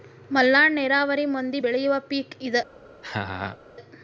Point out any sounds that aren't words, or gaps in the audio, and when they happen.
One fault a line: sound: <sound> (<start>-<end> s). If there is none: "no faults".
sound: laugh (3.0-3.6 s)